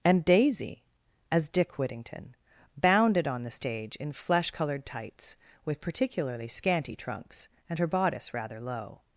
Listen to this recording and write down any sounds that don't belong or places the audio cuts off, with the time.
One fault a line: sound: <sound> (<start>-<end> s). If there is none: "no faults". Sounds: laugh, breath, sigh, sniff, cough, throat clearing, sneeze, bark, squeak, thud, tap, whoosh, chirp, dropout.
no faults